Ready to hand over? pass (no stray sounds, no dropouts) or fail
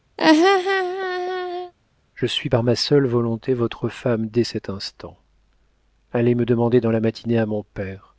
fail